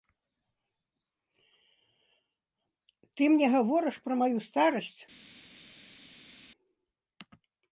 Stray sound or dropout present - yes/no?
no